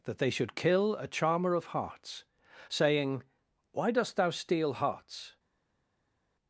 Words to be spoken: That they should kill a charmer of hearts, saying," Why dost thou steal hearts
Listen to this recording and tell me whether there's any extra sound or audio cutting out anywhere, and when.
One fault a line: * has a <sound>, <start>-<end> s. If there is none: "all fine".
all fine